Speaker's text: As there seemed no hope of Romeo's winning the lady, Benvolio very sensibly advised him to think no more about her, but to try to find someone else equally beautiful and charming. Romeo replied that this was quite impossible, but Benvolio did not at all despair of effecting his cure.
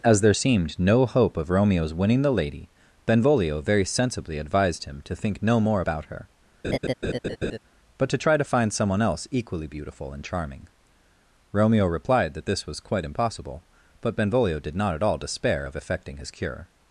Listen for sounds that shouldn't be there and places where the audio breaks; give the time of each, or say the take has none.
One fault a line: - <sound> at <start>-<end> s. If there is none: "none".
- laugh at 6.6-7.6 s